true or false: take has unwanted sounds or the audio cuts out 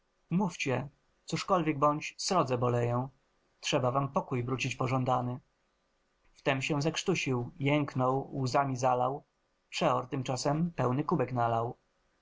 false